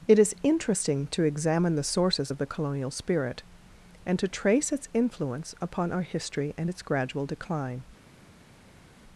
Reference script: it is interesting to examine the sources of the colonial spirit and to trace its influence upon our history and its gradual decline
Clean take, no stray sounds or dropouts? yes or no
yes